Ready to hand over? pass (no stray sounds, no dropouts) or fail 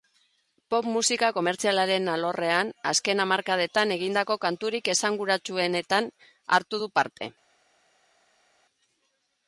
pass